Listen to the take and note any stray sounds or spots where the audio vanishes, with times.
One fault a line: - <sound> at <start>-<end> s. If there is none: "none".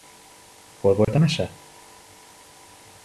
- dropout at 1.0-1.1 s